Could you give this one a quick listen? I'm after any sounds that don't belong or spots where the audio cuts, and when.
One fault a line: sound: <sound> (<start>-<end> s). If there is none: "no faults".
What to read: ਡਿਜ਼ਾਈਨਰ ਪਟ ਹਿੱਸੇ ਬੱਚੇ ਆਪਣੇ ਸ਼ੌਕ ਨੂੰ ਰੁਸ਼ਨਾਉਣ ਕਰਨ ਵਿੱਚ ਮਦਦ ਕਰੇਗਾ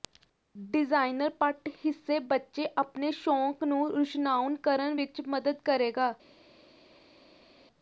no faults